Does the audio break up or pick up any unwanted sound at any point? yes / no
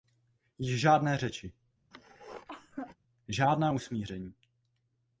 yes